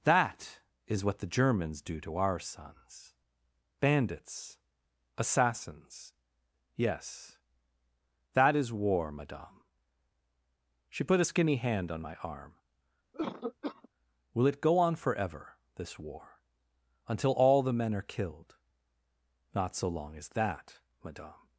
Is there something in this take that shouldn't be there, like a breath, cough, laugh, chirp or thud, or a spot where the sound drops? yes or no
yes